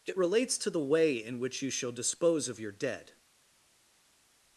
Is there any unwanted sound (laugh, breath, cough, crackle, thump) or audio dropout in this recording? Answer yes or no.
no